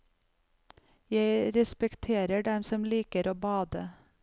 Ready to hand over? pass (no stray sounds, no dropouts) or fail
pass